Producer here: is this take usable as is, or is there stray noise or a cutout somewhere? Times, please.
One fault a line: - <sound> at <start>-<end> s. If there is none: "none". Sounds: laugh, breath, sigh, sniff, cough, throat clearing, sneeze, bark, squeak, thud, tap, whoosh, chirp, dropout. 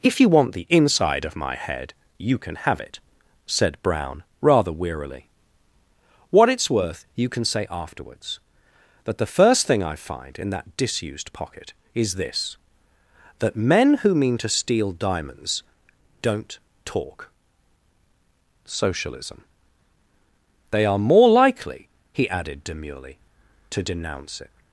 none